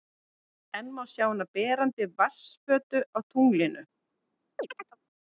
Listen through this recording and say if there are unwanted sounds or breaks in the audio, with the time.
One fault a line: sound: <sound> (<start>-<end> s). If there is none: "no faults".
sound: chirp (4.6-5.0 s)